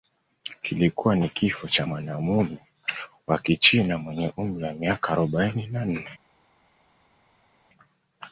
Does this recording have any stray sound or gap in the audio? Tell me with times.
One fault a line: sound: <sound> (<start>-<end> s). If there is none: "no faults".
no faults